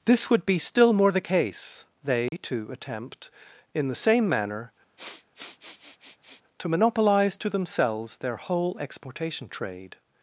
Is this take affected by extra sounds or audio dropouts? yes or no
yes